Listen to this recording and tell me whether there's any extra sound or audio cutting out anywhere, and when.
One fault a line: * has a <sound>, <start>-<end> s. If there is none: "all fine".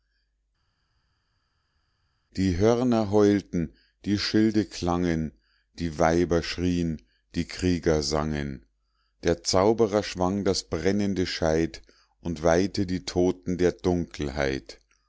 all fine